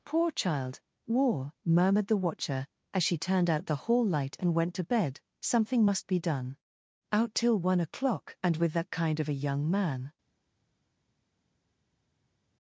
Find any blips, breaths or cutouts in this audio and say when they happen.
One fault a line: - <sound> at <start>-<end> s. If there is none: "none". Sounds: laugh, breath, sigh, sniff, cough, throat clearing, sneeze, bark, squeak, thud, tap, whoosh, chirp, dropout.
none